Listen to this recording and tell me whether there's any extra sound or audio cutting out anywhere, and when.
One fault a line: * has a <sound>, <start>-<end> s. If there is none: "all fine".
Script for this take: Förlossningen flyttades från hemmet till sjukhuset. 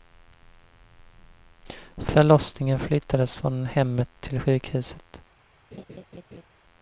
* has a laugh, 5.7-6.5 s